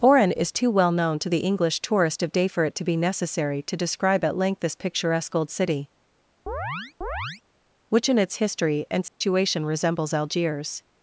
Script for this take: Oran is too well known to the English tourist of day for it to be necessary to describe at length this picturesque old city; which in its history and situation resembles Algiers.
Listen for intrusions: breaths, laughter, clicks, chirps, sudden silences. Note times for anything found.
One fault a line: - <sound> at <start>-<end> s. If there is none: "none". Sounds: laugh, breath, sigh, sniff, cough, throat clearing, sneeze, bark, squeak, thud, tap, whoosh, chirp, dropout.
- chirp at 6.5-7.4 s
- dropout at 9.1-9.2 s